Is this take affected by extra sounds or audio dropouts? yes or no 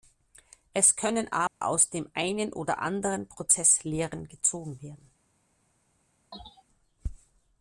yes